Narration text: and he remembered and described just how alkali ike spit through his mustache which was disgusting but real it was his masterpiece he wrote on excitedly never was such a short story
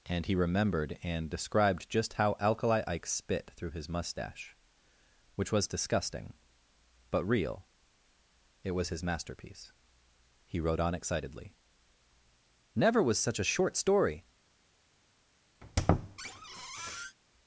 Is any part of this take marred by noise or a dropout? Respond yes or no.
yes